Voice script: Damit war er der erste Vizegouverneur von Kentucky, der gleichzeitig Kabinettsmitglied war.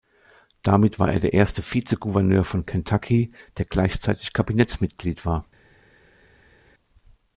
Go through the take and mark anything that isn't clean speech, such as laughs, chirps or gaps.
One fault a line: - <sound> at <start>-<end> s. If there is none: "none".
none